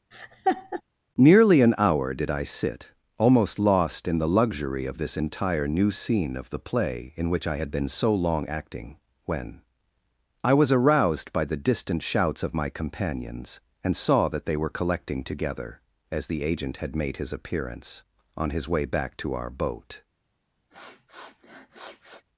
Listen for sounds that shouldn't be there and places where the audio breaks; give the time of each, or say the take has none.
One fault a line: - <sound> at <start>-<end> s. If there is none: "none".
- laugh at 0.1-0.8 s
- sniff at 20.7-22.2 s